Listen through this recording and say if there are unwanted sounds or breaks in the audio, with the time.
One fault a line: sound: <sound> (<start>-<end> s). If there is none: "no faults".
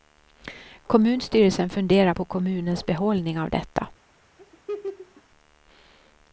sound: laugh (4.4-5.2 s)